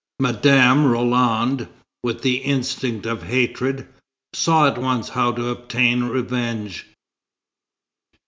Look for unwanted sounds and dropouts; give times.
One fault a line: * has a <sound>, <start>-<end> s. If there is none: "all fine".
all fine